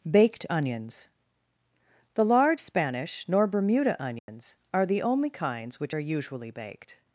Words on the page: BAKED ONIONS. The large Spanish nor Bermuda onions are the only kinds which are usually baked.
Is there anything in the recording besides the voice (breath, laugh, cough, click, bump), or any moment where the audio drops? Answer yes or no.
yes